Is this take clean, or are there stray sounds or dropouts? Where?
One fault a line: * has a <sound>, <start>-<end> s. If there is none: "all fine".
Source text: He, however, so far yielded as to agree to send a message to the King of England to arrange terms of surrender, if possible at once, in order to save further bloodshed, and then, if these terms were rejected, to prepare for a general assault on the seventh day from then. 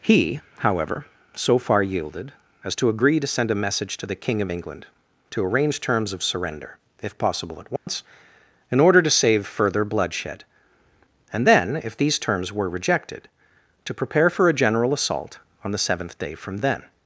* has a dropout, 7.8-7.9 s